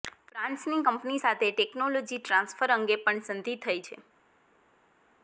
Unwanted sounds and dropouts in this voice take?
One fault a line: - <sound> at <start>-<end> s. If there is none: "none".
none